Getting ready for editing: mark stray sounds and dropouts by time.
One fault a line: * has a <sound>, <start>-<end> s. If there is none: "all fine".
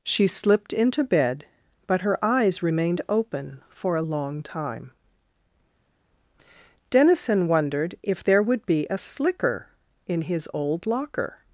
all fine